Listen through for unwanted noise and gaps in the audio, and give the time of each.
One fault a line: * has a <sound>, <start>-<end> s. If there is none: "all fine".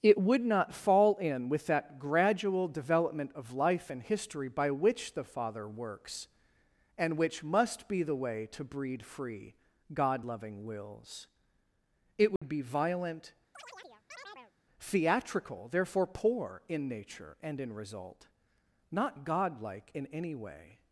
* has a dropout, 12.4-12.4 s
* has a chirp, 13.5-14.5 s